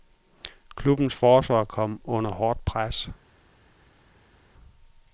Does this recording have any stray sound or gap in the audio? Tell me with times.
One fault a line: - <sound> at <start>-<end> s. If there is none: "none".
none